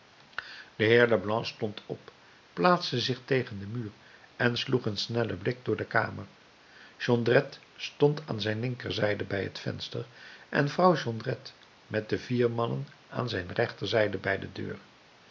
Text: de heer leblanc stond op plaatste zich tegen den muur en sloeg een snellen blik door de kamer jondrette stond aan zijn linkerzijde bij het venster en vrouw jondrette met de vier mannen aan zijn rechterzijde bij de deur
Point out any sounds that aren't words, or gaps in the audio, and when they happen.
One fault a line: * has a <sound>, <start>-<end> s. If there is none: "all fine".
all fine